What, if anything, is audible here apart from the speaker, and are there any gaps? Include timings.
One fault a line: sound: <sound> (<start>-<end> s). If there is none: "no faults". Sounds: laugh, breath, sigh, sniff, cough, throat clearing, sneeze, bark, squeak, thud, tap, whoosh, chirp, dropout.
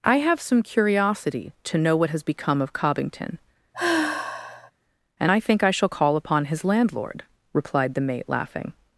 sound: sigh (3.7-4.7 s)